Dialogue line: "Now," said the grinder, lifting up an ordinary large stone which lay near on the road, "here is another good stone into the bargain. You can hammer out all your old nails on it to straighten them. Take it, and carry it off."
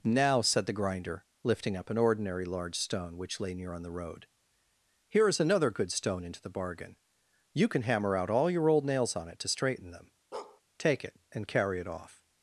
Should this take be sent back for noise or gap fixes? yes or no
yes